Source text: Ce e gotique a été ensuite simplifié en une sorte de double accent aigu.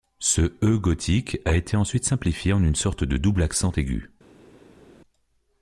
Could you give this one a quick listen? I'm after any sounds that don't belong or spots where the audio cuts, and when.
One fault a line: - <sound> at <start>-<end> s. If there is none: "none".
none